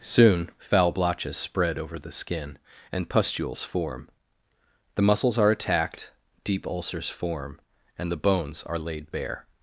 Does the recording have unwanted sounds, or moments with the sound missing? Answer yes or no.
no